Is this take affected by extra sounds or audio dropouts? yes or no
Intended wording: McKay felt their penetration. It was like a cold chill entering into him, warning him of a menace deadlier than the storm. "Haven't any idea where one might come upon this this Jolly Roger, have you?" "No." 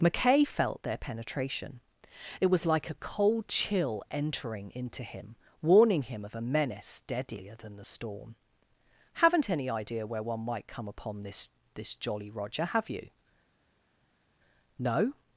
no